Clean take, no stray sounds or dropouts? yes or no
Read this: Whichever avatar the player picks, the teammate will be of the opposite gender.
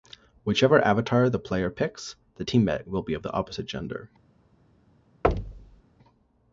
no